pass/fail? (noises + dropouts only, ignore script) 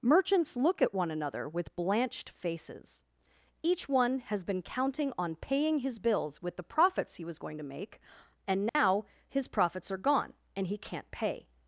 fail